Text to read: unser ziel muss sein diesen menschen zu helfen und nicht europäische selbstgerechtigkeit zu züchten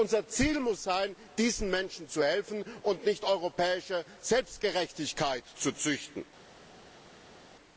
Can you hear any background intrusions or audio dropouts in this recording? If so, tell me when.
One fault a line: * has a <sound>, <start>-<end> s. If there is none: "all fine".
all fine